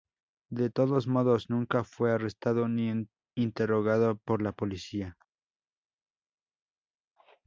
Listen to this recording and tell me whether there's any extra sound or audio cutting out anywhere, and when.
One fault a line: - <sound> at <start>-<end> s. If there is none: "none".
none